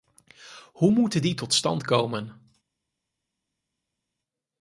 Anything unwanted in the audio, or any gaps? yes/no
no